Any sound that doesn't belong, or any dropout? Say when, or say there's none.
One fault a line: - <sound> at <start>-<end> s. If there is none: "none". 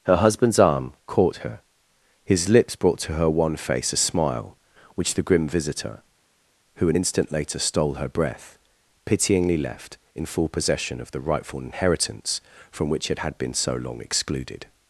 none